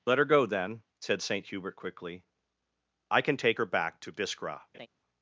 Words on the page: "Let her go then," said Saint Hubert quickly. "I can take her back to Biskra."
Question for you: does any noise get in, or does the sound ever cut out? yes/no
yes